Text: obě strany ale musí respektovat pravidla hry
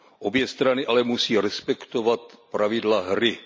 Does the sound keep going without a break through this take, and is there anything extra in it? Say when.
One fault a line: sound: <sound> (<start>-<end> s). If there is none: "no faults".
no faults